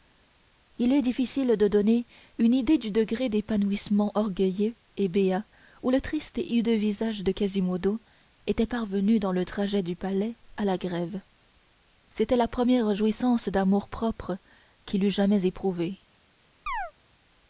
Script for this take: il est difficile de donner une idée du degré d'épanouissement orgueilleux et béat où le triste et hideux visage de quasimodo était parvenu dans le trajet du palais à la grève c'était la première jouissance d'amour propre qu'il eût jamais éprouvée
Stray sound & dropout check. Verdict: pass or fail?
fail